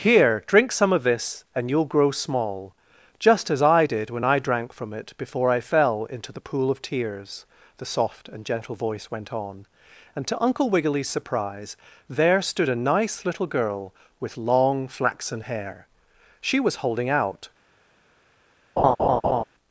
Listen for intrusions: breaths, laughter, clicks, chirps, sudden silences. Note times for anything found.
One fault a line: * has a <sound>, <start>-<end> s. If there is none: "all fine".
* has a laugh, 18.8-19.4 s